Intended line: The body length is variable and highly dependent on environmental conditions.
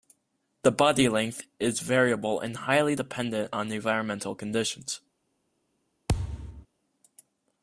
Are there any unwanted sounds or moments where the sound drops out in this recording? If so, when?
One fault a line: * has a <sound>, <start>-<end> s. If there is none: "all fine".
* has a thud, 6.1-6.7 s